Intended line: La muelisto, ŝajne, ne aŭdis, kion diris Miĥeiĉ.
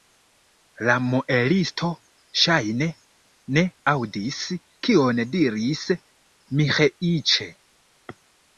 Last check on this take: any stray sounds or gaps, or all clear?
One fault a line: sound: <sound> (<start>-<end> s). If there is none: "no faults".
no faults